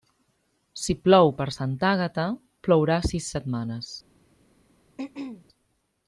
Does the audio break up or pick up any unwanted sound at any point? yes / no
yes